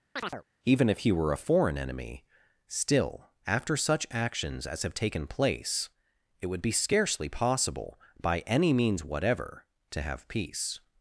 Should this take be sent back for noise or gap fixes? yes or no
yes